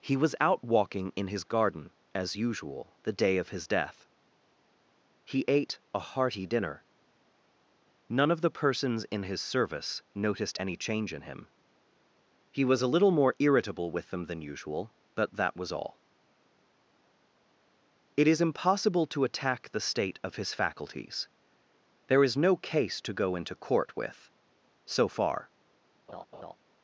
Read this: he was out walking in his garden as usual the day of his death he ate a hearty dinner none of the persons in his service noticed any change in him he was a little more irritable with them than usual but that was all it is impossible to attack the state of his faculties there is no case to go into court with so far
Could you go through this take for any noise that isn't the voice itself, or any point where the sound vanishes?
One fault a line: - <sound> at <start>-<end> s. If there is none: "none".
- laugh at 26.1-26.5 s